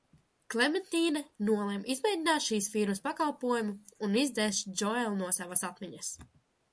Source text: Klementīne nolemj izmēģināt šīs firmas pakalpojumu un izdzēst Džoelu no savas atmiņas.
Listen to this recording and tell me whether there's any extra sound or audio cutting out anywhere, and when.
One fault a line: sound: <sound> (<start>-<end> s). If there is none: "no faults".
no faults